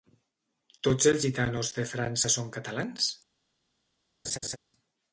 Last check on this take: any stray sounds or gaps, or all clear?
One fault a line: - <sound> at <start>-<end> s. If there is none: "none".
- laugh at 4.2-4.6 s